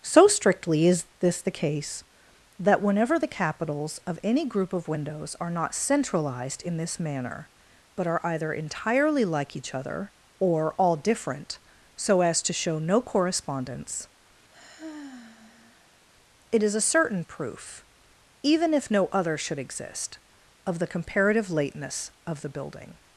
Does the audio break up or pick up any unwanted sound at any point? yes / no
yes